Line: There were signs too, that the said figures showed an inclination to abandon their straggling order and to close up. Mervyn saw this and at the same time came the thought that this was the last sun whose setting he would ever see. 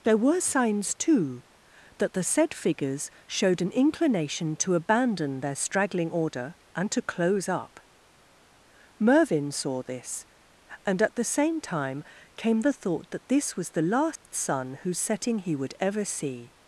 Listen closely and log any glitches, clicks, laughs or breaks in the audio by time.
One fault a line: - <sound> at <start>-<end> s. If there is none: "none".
- dropout at 14.2-14.3 s